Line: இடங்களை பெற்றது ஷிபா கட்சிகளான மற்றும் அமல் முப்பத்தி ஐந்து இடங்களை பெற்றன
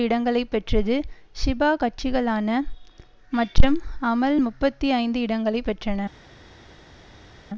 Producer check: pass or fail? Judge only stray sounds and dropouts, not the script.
pass